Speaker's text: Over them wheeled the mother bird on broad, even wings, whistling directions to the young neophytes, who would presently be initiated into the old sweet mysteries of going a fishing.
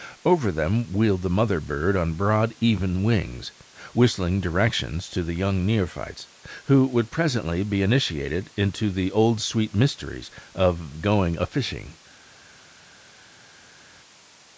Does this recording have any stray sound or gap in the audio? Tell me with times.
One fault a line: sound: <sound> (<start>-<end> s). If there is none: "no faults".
no faults